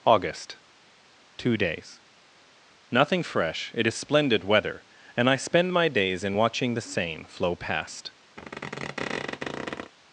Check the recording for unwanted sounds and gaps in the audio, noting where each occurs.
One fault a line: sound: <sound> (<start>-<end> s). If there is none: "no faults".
sound: squeak (8.4-9.9 s)